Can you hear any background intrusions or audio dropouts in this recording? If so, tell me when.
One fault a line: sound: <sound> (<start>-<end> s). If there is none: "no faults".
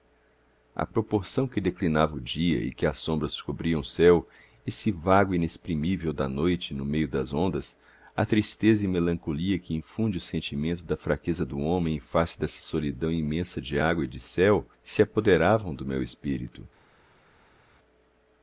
no faults